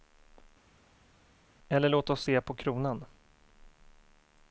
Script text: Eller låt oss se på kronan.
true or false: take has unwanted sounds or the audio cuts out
false